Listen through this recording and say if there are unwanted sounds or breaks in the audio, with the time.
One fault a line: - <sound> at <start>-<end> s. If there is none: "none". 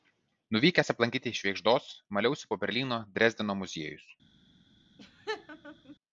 - laugh at 5.0-6.0 s